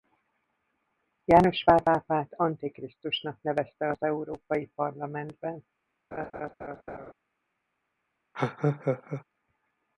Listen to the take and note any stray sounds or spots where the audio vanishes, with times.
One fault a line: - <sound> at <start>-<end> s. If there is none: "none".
- laugh at 6.1-7.1 s
- laugh at 8.3-9.2 s